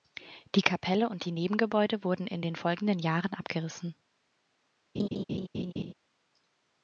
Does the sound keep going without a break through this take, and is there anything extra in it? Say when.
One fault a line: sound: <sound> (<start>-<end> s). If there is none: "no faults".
sound: laugh (4.9-5.9 s)